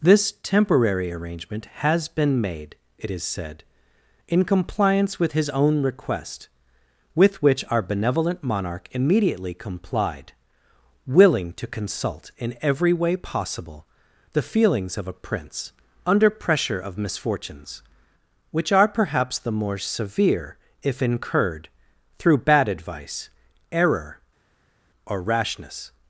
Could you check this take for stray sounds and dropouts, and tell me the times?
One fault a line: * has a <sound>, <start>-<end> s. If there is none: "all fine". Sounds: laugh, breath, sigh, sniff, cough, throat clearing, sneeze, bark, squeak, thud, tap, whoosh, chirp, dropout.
all fine